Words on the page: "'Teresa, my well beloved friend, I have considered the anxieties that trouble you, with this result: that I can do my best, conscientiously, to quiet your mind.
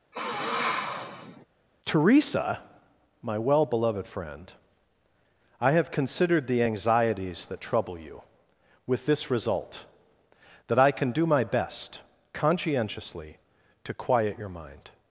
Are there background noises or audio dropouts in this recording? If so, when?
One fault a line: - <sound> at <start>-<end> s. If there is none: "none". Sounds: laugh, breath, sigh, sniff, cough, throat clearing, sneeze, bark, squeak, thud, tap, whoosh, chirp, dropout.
- sniff at 0.1-1.4 s